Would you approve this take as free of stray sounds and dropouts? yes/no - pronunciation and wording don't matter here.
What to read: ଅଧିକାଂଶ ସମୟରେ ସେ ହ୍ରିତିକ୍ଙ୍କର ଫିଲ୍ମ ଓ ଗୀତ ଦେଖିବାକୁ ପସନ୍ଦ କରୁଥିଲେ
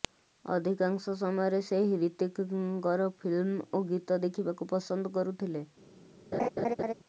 no